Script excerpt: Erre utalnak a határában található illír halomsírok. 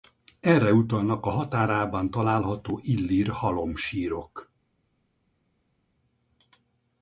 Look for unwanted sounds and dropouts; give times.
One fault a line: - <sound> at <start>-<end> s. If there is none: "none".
none